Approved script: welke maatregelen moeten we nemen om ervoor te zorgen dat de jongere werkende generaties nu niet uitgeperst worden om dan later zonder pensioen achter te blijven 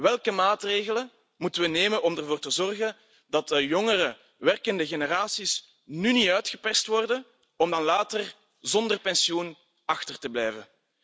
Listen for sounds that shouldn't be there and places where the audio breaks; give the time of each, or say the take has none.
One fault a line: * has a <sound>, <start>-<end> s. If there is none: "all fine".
all fine